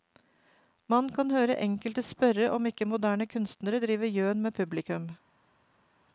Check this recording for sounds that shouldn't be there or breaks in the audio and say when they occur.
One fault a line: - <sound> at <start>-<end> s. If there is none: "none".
none